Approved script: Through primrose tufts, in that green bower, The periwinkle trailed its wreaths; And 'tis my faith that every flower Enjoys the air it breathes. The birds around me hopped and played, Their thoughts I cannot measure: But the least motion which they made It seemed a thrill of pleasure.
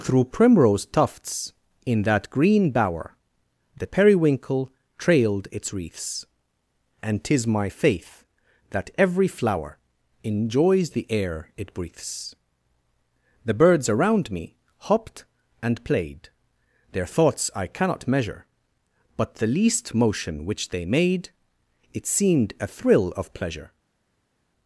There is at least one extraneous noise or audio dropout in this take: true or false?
false